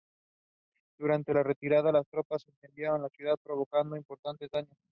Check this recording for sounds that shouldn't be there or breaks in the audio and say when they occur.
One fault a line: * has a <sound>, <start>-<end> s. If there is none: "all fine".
all fine